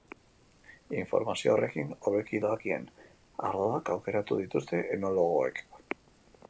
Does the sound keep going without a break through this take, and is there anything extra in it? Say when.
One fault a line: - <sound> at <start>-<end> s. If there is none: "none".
none